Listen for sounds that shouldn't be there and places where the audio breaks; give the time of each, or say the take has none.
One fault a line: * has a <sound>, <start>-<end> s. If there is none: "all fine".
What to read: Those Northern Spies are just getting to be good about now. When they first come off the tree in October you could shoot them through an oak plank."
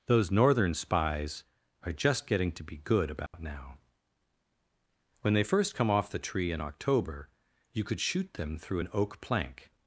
* has a dropout, 3.3-3.3 s